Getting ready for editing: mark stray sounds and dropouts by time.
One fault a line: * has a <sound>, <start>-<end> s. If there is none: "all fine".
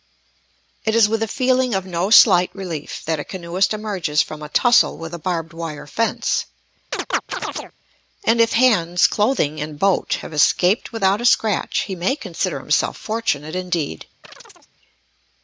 * has a chirp, 6.9-7.7 s
* has a chirp, 14.2-14.7 s